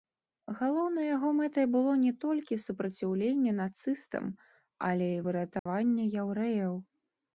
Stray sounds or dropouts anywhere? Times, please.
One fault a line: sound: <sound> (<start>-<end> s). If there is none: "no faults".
sound: dropout (5.6-5.7 s)